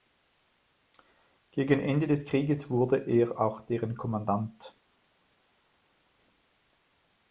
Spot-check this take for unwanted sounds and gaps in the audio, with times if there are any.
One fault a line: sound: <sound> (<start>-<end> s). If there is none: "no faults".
no faults